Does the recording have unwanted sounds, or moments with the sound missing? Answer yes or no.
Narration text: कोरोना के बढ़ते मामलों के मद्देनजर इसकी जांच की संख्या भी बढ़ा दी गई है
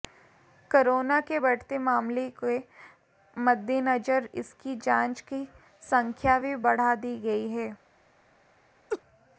yes